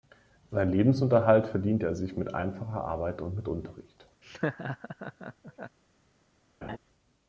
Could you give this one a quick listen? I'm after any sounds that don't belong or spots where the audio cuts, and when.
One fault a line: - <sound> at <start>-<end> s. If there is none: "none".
- laugh at 4.2-5.8 s
- laugh at 6.6-6.8 s